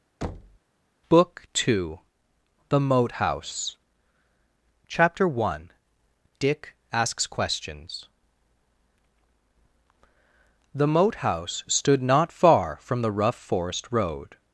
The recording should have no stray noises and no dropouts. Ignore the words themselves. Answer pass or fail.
fail